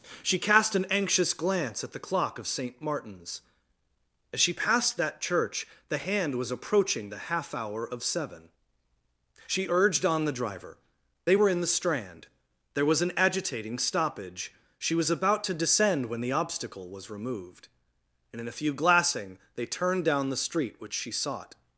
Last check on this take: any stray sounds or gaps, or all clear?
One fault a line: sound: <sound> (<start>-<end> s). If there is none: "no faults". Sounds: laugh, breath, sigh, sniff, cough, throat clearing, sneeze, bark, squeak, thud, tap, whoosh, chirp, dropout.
no faults